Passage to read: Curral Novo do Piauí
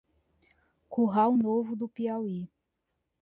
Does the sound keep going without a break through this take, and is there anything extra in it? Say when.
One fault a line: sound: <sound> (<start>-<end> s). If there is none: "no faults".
no faults